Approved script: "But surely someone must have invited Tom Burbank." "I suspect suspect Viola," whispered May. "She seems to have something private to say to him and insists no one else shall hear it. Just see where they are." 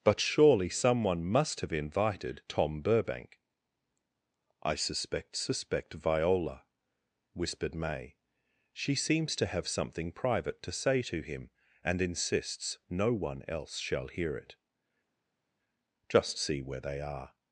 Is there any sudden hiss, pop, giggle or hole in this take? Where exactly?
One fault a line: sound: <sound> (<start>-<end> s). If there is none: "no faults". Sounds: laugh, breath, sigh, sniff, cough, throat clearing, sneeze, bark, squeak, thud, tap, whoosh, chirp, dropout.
no faults